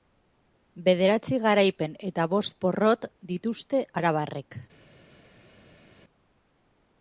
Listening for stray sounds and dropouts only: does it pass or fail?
pass